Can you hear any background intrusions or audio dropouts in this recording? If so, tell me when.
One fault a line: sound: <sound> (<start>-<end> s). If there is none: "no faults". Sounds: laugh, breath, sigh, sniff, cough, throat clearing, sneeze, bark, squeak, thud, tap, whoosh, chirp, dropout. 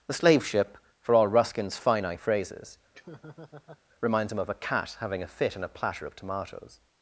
sound: laugh (2.9-3.8 s)